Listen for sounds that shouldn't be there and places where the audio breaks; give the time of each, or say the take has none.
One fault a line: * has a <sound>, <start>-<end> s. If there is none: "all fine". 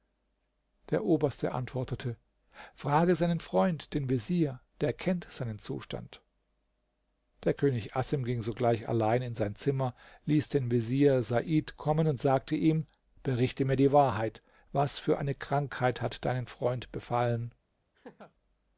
* has a laugh, 17.9-18.3 s